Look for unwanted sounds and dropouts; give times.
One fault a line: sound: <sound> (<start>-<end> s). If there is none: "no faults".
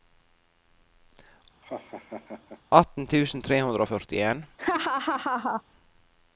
sound: laugh (1.6-2.6 s)
sound: laugh (4.6-5.6 s)